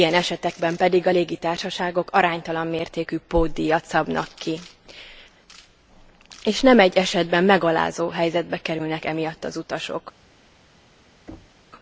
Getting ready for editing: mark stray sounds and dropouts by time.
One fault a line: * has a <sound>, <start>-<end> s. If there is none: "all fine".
* has a thud, 11.3-11.6 s